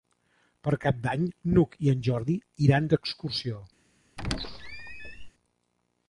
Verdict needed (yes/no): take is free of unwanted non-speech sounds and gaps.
no